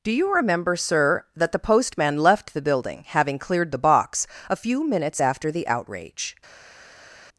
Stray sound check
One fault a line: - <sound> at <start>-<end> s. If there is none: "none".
none